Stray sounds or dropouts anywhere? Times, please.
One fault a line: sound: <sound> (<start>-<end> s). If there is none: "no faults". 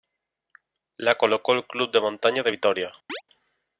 sound: chirp (3.1-3.2 s)